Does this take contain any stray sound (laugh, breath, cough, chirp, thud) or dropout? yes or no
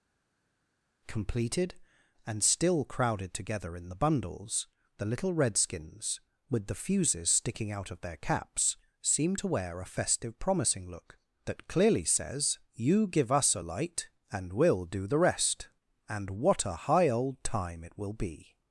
no